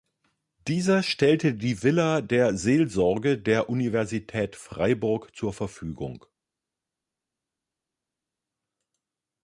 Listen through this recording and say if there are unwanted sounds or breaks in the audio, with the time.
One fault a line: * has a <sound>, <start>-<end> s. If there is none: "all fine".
all fine